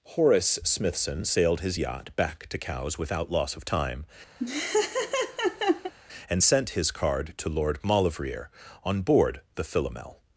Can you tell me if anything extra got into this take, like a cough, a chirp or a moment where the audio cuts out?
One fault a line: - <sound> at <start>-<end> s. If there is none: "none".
- laugh at 4.4-5.9 s